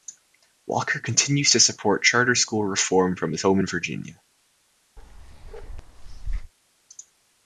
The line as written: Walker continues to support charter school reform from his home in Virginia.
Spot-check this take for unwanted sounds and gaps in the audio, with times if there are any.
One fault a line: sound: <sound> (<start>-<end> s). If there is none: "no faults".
sound: bark (5.0-6.5 s)